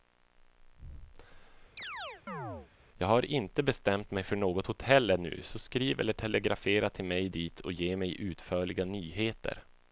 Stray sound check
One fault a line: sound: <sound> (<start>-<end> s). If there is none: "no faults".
sound: chirp (1.8-2.7 s)